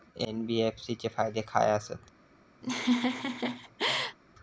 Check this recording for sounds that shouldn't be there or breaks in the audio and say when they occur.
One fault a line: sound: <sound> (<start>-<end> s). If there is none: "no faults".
sound: laugh (2.6-4.2 s)